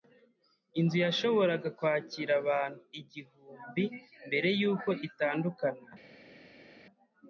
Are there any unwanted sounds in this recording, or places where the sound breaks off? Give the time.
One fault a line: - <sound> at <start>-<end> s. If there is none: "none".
none